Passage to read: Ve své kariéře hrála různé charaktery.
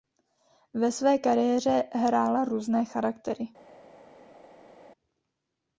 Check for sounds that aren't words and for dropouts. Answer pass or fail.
pass